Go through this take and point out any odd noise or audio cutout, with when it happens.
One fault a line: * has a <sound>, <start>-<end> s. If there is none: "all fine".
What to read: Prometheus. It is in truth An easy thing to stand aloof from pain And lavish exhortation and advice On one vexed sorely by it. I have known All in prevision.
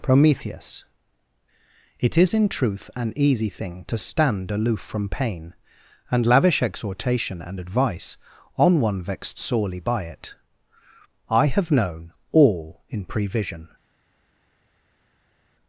all fine